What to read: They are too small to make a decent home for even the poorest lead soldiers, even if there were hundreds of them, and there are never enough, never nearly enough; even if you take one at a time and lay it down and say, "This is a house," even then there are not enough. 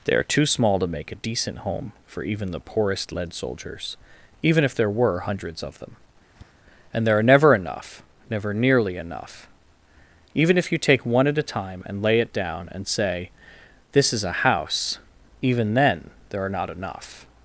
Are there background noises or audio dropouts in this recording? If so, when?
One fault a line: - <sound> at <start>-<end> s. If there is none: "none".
- tap at 6.4-6.5 s